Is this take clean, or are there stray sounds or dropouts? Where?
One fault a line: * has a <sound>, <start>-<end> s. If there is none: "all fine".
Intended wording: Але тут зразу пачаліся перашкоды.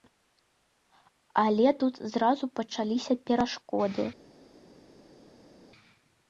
all fine